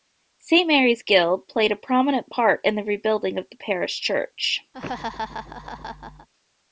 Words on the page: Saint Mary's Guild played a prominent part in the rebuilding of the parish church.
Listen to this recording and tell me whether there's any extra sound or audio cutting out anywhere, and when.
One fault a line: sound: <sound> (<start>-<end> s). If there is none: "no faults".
sound: laugh (4.7-6.3 s)